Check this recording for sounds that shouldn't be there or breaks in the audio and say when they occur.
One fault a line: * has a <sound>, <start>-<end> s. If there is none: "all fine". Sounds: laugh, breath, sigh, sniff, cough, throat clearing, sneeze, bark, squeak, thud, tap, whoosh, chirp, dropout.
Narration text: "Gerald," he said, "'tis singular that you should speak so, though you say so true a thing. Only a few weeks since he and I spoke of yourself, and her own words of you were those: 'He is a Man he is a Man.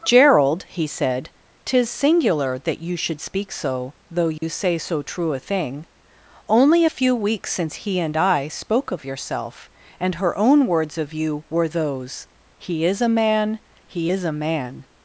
* has a dropout, 4.4-4.4 s